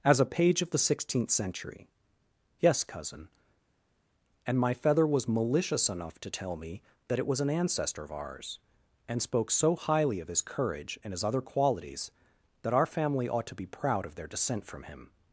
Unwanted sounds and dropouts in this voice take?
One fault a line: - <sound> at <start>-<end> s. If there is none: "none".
none